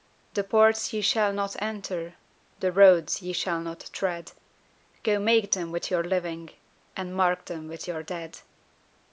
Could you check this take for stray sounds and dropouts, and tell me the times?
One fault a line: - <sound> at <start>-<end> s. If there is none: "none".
none